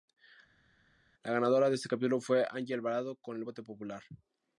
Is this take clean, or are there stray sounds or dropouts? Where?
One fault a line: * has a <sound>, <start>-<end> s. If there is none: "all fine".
all fine